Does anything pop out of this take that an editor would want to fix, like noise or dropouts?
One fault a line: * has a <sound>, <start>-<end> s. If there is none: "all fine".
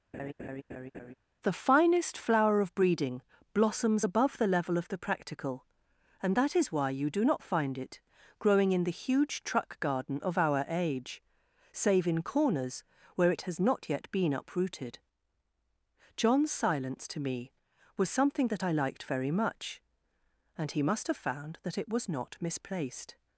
* has a laugh, 0.1-1.1 s